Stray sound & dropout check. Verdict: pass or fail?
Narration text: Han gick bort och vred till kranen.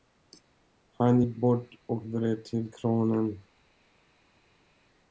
pass